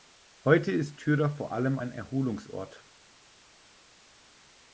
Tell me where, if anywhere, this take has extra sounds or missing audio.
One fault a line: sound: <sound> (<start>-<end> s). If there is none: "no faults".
no faults